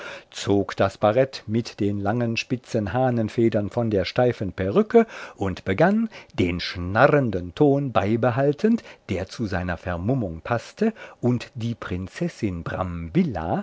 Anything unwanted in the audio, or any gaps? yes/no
no